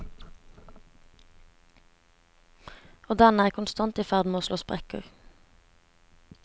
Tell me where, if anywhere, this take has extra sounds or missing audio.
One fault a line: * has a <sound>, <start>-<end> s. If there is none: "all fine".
all fine